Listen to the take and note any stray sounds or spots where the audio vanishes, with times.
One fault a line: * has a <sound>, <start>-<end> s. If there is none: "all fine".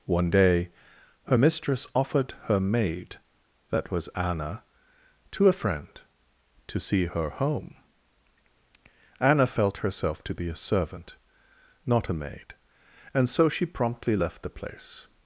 all fine